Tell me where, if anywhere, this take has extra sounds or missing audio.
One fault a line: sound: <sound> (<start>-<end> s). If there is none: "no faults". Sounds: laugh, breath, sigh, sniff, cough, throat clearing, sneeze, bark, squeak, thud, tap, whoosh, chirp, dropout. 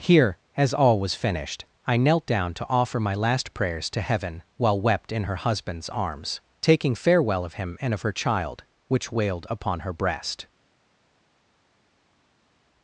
no faults